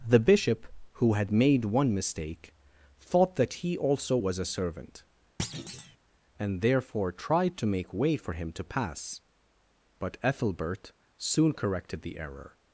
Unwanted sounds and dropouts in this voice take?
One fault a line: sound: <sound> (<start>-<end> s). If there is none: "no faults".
sound: thud (5.4-6.0 s)